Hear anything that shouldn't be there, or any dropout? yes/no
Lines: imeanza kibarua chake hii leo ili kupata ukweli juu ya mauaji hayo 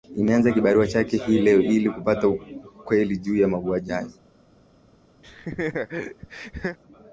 yes